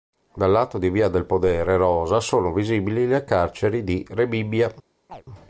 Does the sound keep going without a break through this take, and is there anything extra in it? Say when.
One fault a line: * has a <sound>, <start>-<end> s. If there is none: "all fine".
* has a chirp, 5.1-5.2 s